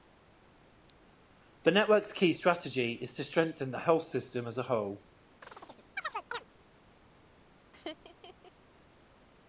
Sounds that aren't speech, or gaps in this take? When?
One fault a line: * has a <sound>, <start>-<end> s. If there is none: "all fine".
* has a chirp, 5.4-6.4 s
* has a laugh, 7.7-8.5 s